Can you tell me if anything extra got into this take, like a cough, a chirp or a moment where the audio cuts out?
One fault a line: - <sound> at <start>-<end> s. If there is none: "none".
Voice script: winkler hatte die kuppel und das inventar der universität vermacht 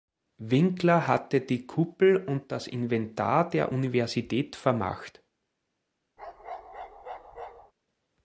- bark at 6.2-7.7 s